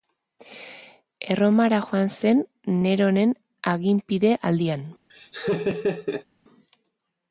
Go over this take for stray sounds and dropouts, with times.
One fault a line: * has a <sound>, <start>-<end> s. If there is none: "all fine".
* has a laugh, 5.1-6.2 s